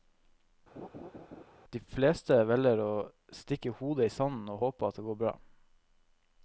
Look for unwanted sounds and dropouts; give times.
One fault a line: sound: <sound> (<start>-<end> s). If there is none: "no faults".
sound: laugh (0.8-1.4 s)